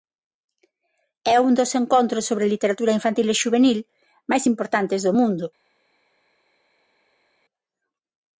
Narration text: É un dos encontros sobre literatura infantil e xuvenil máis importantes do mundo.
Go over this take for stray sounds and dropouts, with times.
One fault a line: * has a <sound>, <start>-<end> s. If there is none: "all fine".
all fine